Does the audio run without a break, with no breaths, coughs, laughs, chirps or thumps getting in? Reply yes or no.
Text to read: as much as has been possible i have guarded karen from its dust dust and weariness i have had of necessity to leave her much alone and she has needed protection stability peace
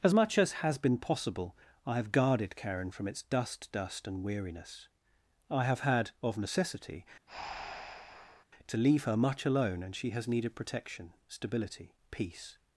no